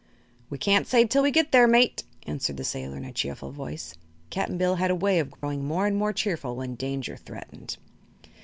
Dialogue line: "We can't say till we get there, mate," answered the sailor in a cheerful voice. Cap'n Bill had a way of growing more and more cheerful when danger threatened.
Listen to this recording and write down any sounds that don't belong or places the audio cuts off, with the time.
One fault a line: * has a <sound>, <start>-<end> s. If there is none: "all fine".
* has a dropout, 5.4-5.4 s